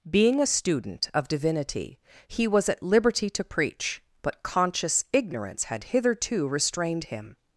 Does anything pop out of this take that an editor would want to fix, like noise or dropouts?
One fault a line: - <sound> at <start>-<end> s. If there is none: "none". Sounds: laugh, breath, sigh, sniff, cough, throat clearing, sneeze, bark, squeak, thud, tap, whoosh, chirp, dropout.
none